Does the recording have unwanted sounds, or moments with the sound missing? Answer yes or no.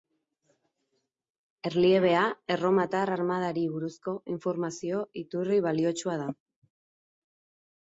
no